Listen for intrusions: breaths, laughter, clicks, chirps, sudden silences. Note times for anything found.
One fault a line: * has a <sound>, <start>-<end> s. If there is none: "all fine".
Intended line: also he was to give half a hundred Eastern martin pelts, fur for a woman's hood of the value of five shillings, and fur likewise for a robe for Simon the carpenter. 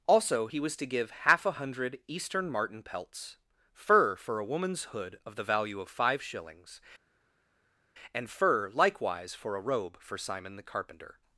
all fine